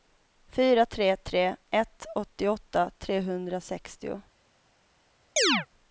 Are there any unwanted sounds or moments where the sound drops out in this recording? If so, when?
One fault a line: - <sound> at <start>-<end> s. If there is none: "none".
- chirp at 5.4-5.7 s